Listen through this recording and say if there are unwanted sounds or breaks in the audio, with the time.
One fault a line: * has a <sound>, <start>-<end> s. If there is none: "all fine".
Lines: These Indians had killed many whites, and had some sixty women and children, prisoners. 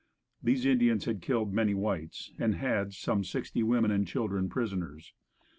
all fine